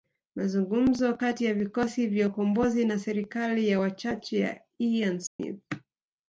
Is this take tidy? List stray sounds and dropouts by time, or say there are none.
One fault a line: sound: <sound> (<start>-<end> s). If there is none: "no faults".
sound: dropout (5.3-5.4 s)